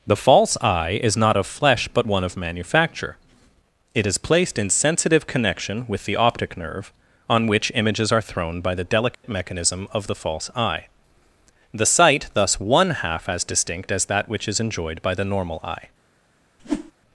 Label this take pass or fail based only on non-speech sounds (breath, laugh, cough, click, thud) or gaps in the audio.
fail